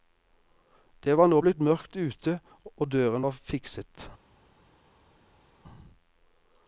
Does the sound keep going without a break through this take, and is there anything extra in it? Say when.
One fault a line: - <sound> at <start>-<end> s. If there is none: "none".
none